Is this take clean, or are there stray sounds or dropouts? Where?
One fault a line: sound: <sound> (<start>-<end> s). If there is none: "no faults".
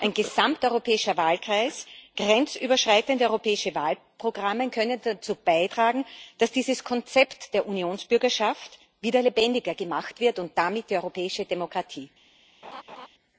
sound: laugh (12.6-13.1 s)